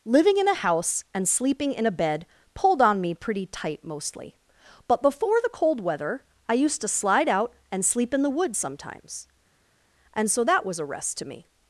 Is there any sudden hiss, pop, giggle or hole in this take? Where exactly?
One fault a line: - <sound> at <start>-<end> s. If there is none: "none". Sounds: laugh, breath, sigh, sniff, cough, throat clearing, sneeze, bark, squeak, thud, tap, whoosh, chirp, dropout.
none